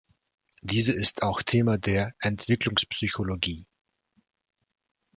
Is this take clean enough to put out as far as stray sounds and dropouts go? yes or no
yes